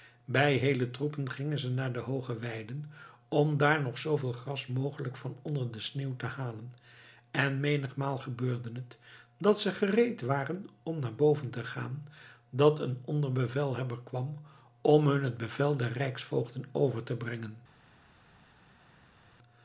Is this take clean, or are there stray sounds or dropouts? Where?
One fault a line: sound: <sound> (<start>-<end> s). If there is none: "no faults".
no faults